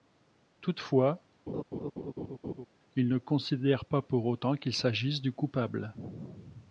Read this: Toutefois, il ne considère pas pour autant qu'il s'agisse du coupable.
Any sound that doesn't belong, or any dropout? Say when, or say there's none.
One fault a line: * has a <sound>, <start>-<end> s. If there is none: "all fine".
* has a laugh, 1.5-2.7 s